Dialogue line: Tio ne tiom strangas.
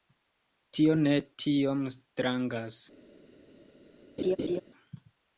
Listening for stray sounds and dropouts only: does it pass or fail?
fail